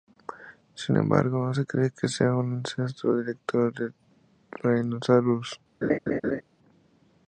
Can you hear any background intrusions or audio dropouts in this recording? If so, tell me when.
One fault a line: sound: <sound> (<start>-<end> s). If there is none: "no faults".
sound: laugh (5.8-6.4 s)